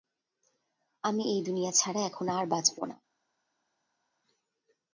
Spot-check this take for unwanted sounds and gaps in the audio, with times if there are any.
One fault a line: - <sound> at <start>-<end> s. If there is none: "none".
none